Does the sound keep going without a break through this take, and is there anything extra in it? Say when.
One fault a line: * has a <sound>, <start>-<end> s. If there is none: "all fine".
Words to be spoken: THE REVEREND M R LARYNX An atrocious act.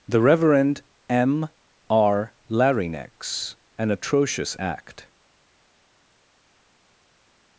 all fine